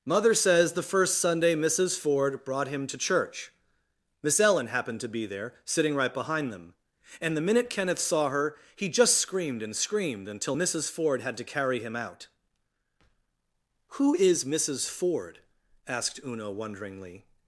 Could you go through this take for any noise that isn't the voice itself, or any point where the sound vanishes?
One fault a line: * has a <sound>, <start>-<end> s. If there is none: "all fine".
all fine